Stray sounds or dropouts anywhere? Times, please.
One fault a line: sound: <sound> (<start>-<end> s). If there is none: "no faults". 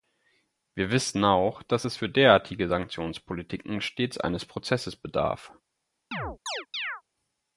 sound: chirp (6.1-7.0 s)